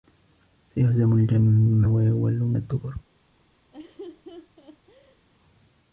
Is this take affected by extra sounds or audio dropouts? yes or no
yes